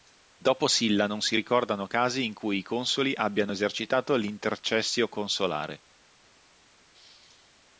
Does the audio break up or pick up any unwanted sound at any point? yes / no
no